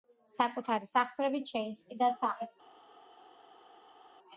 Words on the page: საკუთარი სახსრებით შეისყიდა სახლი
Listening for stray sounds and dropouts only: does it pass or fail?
pass